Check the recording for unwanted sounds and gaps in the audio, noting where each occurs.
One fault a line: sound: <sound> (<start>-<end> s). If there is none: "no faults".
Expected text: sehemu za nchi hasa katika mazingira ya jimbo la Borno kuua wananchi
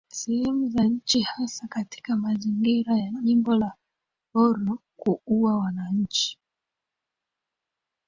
no faults